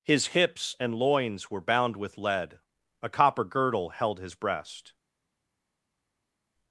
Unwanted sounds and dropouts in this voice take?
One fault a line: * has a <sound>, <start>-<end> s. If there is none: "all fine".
all fine